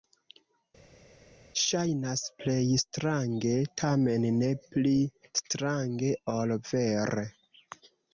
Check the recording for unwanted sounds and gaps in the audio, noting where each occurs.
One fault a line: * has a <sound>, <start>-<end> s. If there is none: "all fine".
all fine